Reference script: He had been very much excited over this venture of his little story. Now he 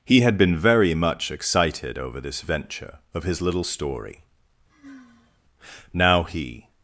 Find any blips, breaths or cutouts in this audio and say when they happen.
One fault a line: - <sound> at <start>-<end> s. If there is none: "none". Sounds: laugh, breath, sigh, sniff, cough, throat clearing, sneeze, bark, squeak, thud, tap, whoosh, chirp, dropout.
- sigh at 4.7-5.4 s